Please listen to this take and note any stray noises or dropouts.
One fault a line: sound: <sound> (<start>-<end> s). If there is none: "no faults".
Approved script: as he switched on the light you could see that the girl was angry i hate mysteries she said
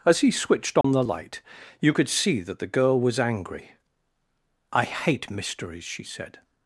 sound: dropout (0.8-0.8 s)